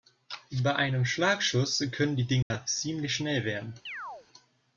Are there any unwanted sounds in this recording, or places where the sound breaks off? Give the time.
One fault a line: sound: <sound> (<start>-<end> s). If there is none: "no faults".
sound: dropout (2.4-2.5 s)
sound: chirp (3.9-4.3 s)